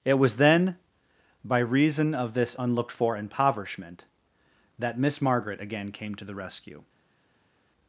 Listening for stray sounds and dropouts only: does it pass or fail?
pass